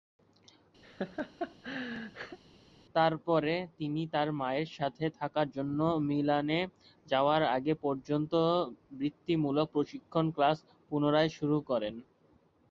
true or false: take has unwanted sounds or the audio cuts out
true